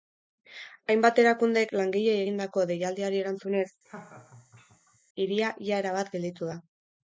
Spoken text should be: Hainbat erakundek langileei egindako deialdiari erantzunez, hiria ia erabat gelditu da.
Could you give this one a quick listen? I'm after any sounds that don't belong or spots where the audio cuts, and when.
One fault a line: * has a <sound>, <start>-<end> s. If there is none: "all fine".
* has a laugh, 3.8-5.0 s